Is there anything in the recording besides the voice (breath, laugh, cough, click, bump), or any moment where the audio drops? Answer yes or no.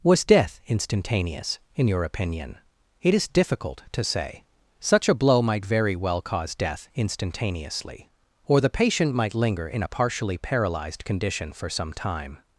no